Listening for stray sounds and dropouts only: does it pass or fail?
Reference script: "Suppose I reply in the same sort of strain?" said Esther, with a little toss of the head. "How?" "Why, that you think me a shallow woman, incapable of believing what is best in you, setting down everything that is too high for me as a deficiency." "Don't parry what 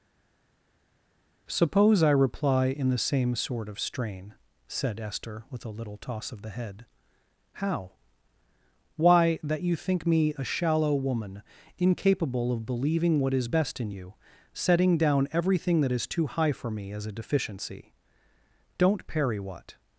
pass